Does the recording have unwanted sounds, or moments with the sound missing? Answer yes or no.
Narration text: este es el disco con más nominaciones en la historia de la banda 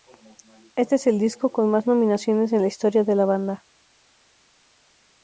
no